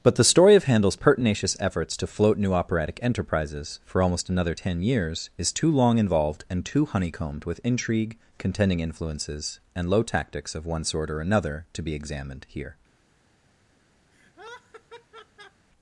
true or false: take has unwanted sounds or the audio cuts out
true